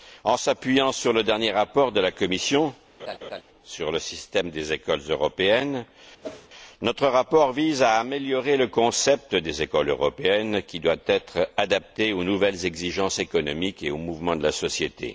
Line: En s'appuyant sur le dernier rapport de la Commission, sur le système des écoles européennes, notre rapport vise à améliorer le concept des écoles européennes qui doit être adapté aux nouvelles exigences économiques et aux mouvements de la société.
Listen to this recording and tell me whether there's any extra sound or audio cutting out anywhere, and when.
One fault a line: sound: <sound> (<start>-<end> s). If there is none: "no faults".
sound: laugh (3.0-3.4 s)
sound: whoosh (6.2-6.5 s)